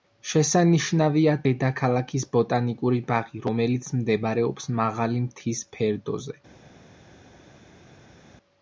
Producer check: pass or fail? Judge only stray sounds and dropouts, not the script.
pass